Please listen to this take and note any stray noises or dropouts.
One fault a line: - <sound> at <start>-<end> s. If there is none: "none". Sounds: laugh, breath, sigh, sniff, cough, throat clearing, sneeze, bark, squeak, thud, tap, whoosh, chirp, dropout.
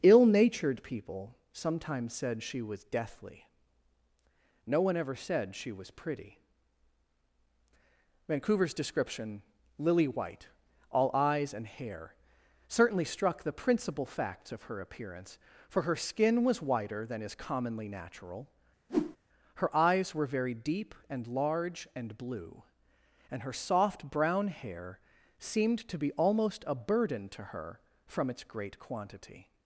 - whoosh at 18.9-19.2 s